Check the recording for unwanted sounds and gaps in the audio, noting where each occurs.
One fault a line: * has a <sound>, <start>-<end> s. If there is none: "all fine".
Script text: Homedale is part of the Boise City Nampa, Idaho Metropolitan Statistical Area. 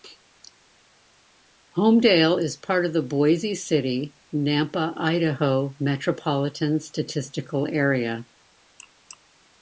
all fine